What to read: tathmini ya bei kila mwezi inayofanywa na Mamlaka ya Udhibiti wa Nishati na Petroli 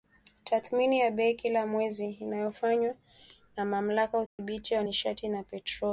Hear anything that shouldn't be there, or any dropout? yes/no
yes